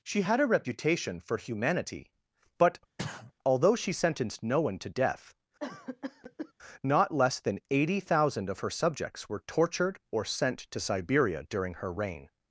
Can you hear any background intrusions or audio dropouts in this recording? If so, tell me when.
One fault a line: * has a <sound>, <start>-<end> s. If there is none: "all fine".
* has a sneeze, 3.0-3.3 s
* has a cough, 5.6-6.5 s